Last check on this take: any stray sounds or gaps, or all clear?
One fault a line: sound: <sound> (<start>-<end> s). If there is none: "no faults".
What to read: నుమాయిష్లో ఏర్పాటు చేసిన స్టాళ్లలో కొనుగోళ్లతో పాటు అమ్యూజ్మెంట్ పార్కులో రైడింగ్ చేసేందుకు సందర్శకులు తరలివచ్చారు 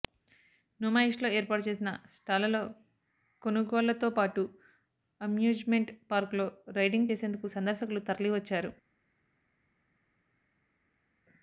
no faults